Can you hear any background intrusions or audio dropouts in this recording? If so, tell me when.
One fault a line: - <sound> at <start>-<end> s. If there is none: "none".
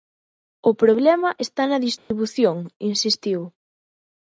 - dropout at 2.0-2.1 s